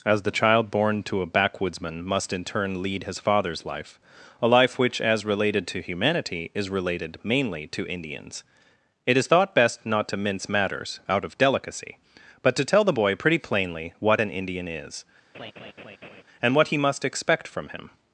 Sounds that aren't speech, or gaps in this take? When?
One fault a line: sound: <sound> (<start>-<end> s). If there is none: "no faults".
sound: laugh (15.3-16.2 s)